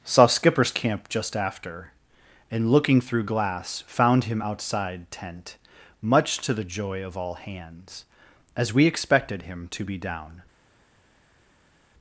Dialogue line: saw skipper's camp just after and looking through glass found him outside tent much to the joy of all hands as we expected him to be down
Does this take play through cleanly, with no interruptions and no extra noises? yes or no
yes